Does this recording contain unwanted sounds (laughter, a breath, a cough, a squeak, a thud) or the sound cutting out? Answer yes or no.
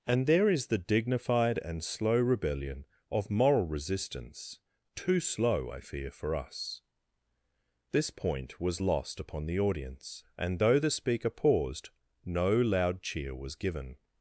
no